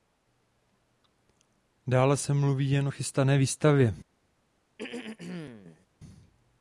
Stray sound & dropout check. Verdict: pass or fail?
fail